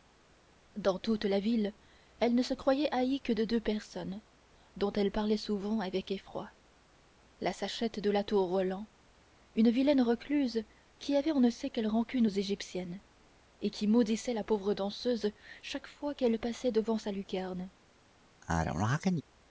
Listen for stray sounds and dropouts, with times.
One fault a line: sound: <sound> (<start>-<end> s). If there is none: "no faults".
sound: sneeze (18.4-19.2 s)